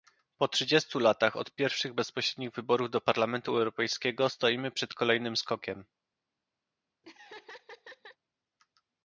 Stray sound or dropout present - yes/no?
yes